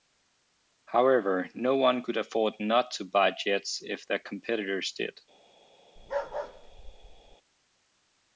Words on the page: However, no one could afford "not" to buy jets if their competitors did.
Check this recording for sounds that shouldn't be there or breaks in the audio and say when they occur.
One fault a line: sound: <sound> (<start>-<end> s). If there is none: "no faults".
sound: bark (6.0-7.4 s)